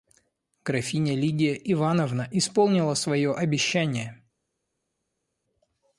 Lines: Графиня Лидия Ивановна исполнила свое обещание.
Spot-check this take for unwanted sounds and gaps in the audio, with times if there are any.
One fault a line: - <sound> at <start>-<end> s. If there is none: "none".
none